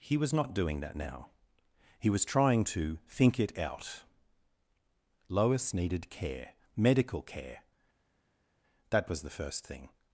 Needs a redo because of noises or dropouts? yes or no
no